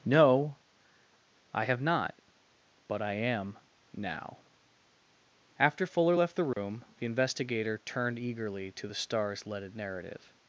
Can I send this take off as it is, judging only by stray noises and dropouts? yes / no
no